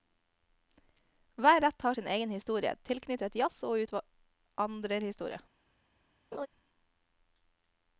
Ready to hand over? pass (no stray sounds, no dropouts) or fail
fail